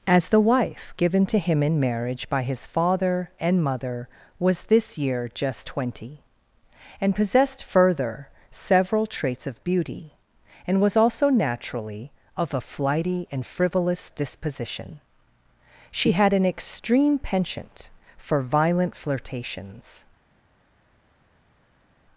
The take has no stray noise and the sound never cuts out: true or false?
true